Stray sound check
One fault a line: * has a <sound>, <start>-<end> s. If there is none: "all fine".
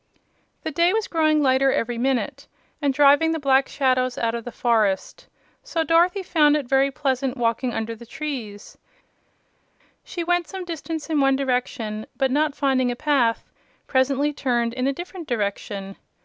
all fine